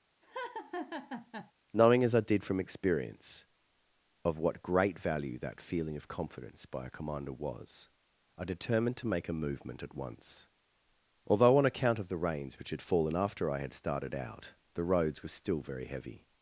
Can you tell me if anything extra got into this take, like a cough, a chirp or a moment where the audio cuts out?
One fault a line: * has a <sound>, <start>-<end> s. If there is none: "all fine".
* has a laugh, 0.2-1.5 s